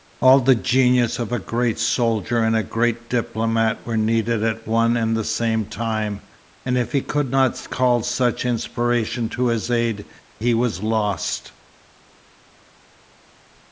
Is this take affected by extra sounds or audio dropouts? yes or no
no